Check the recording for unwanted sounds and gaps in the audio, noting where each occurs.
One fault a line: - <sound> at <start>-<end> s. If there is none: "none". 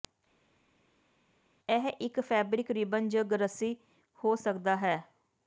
none